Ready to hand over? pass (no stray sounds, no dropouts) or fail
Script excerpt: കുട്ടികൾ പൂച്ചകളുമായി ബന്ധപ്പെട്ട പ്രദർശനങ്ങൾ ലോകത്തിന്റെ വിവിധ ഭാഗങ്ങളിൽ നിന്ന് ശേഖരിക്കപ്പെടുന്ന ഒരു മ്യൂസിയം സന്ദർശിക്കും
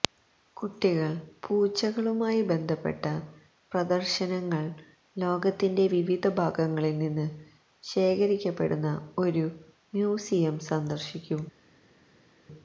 pass